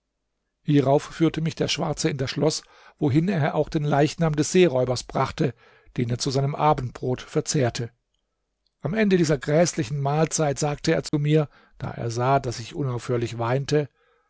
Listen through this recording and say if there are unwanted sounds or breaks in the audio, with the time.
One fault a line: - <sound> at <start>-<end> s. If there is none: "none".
- dropout at 11.1-11.1 s